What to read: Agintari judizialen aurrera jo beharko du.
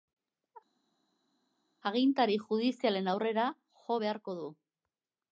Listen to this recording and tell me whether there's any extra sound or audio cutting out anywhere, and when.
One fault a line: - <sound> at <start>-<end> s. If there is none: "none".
none